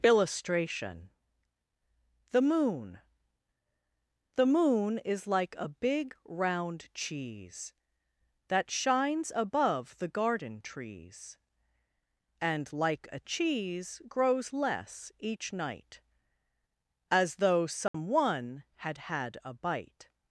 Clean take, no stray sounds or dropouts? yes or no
no